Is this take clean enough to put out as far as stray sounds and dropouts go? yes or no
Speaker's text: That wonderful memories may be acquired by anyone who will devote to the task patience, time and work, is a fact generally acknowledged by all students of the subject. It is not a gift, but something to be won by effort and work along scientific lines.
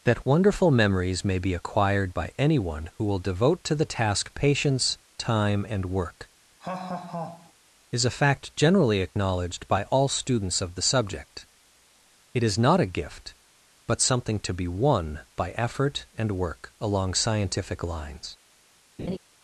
no